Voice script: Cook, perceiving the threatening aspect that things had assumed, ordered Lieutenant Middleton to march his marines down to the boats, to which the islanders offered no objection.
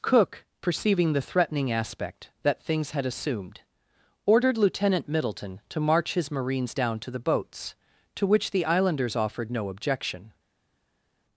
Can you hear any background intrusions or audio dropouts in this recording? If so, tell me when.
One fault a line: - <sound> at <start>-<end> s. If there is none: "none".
none